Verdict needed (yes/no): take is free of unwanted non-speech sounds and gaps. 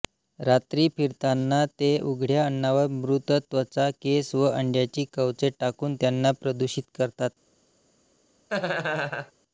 no